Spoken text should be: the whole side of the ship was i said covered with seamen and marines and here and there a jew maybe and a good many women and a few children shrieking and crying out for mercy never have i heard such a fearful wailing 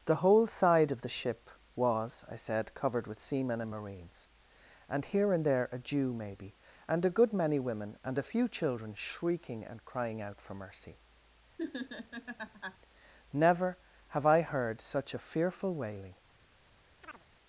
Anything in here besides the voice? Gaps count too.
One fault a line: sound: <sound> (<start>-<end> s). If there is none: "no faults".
sound: laugh (11.6-12.8 s)
sound: chirp (17.0-17.2 s)